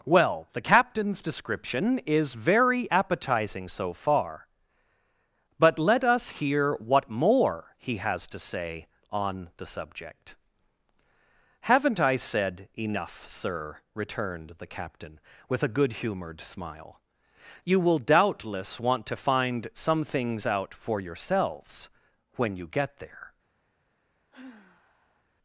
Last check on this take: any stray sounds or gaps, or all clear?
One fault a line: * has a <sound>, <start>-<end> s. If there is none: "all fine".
* has a sigh, 24.3-25.2 s